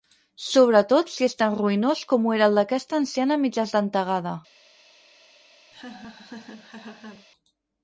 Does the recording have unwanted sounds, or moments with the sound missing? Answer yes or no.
yes